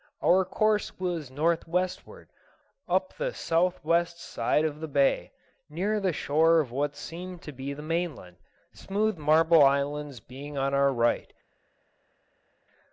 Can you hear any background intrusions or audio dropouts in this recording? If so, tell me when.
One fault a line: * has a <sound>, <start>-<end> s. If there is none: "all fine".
all fine